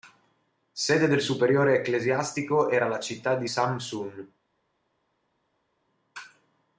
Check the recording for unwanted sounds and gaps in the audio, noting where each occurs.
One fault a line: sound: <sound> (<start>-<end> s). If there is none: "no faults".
no faults